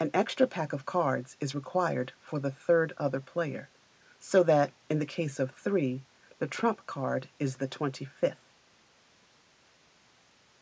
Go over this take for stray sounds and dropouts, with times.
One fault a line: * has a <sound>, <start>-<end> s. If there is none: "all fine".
all fine